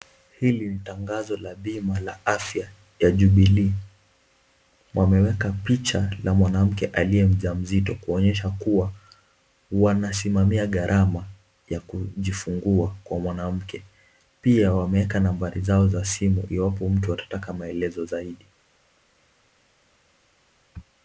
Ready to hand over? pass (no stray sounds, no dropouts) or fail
pass